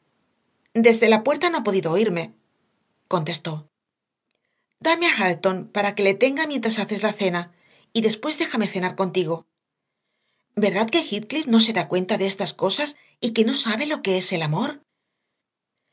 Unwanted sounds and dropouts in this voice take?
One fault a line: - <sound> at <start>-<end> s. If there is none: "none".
none